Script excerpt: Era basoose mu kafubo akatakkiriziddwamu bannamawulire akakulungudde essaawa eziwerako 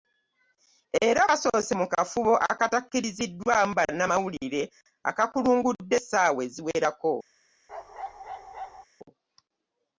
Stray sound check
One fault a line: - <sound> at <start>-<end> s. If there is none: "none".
- bark at 7.7-8.9 s